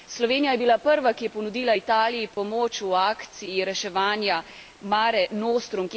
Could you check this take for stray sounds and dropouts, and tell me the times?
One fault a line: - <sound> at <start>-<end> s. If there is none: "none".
- dropout at 2.3-2.4 s